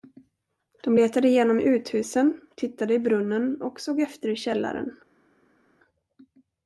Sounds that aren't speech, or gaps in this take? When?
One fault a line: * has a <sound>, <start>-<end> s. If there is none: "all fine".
all fine